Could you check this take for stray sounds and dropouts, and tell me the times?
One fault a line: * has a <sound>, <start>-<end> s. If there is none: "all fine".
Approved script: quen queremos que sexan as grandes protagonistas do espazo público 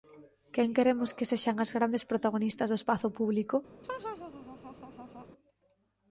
* has a laugh, 3.8-5.3 s